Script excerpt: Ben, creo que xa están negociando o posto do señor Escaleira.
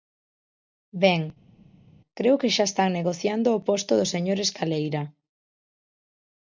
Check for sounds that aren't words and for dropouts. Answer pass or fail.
pass